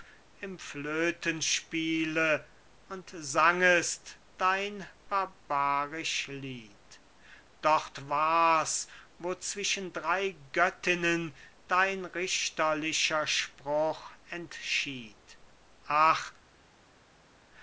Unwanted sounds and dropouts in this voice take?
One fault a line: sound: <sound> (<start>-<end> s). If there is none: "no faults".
no faults